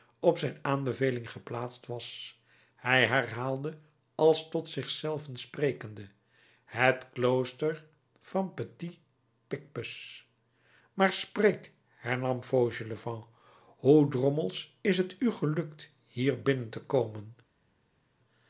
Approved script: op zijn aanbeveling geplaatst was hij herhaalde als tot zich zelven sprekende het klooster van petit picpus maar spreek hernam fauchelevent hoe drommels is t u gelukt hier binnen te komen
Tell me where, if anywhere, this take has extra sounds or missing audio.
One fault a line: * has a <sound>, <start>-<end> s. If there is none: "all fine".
all fine